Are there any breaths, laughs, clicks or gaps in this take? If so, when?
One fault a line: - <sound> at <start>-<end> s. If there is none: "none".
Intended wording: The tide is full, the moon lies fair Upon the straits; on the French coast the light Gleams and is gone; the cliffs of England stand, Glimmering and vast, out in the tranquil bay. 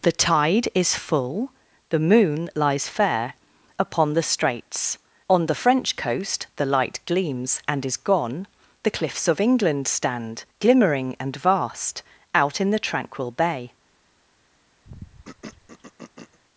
- throat clearing at 14.8-16.4 s